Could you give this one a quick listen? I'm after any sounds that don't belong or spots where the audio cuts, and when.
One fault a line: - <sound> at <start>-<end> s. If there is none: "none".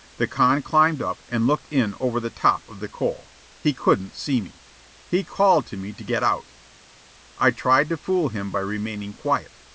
none